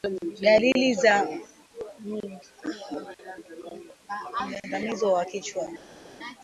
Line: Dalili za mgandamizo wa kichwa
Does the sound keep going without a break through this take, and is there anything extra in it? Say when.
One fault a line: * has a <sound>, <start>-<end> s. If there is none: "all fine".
all fine